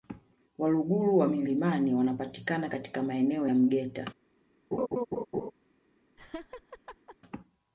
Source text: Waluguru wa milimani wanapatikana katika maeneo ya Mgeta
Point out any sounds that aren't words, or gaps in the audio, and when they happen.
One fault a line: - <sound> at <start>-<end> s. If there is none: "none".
- laugh at 4.7-5.5 s
- laugh at 6.2-7.2 s